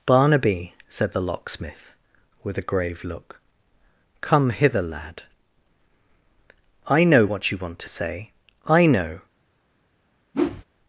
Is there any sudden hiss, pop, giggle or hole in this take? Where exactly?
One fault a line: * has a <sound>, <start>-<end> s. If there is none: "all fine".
* has a whoosh, 10.3-10.6 s